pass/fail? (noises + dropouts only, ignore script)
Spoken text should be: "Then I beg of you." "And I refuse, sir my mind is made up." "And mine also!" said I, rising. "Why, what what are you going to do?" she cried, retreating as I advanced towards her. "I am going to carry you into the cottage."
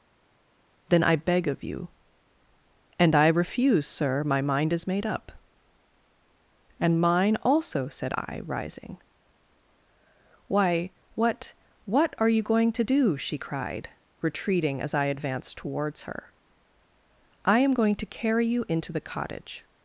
pass